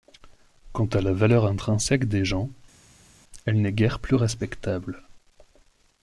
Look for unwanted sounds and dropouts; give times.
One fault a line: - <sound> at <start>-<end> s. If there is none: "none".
none